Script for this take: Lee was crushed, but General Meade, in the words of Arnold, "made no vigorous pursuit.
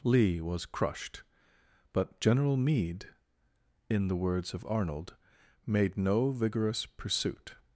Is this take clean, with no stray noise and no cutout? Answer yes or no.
yes